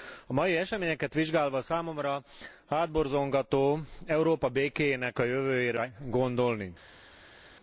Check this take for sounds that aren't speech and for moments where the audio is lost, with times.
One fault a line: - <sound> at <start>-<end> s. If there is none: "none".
none